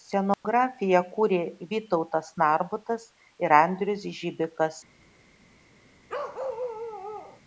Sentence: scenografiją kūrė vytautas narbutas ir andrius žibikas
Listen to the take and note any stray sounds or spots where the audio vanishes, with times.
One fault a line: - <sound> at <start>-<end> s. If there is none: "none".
- dropout at 0.3-0.4 s
- bark at 6.1-7.4 s